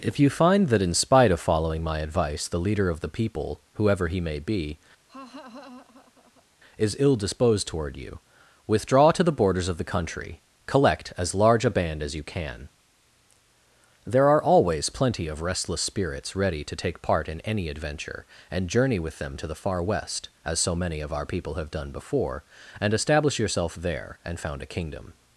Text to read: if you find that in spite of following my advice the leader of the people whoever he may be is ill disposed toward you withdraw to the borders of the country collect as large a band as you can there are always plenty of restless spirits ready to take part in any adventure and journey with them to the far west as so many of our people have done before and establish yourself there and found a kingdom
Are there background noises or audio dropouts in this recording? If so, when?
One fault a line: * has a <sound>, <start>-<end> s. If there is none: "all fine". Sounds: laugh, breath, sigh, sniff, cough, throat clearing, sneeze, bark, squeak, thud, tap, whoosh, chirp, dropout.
* has a laugh, 5.1-6.5 s